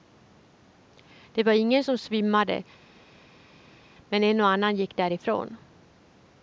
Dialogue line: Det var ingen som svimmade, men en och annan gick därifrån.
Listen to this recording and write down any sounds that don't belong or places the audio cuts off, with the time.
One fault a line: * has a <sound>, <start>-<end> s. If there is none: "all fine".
all fine